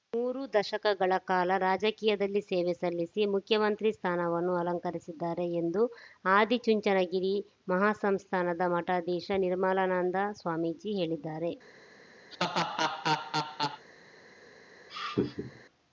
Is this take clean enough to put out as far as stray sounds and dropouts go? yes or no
no